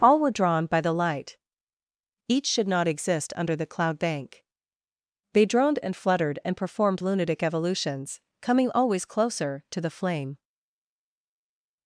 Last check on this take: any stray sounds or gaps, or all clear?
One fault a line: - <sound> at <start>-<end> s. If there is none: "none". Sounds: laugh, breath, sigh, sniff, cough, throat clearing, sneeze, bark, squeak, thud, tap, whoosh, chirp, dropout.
none